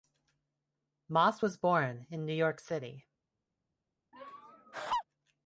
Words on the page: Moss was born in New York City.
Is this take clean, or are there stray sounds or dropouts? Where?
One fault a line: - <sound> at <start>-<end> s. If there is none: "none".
- laugh at 4.1-5.0 s